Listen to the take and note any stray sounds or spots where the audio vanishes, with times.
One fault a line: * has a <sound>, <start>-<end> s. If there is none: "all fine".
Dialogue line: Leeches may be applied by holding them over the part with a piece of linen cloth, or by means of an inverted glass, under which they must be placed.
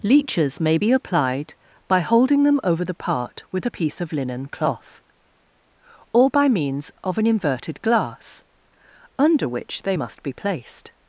all fine